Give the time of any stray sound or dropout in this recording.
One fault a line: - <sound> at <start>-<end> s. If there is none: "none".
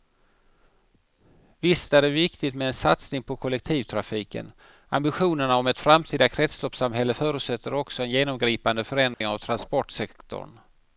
- dropout at 9.1-9.2 s